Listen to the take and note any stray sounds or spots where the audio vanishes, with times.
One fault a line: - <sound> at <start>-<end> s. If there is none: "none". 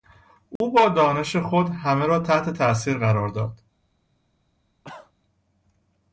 - dropout at 0.6-0.6 s
- cough at 4.8-5.1 s